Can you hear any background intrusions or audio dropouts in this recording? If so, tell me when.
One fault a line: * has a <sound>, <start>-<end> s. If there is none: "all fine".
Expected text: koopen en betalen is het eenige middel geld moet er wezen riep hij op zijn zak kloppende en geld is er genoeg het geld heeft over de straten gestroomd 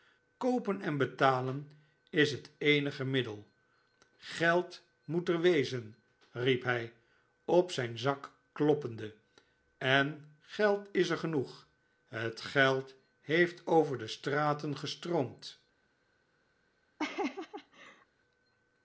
* has a laugh, 17.0-18.1 s